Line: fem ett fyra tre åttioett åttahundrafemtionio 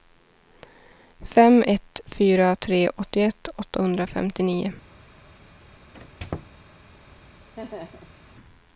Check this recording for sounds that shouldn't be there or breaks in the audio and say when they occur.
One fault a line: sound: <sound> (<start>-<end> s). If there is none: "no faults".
sound: squeak (5.9-6.6 s)
sound: laugh (7.6-8.2 s)